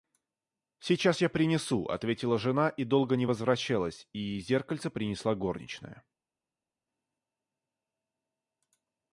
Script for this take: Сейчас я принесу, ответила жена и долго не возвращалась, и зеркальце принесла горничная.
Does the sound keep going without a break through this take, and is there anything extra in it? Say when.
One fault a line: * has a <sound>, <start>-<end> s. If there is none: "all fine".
all fine